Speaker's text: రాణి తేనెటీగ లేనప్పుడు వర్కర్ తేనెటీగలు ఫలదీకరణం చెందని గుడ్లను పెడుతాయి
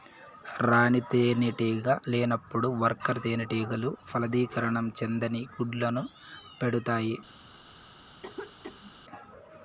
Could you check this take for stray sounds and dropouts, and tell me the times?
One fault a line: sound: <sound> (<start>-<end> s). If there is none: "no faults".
sound: cough (8.2-8.9 s)